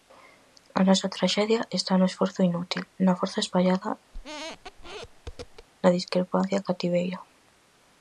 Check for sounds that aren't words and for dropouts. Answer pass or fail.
fail